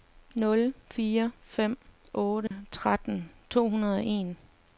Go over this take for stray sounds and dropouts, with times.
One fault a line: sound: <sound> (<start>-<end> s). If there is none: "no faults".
sound: dropout (2.5-2.5 s)